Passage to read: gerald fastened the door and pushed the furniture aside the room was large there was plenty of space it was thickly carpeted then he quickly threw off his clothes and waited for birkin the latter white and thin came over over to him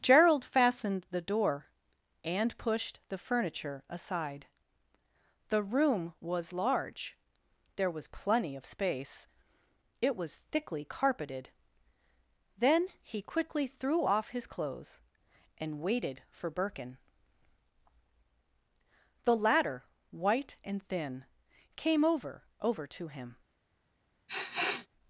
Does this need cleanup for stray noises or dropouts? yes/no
yes